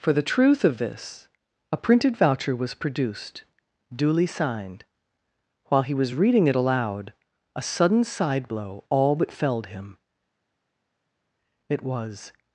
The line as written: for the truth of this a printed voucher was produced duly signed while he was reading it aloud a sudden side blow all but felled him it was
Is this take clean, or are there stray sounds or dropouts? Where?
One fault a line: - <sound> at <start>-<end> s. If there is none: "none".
none